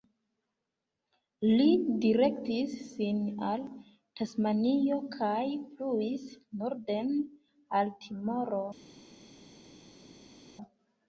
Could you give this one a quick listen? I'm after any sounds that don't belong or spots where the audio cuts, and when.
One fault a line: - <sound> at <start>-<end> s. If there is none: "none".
none